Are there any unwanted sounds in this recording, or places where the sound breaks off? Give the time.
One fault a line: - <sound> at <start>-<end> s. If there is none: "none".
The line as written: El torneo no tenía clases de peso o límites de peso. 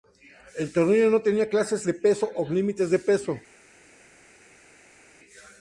none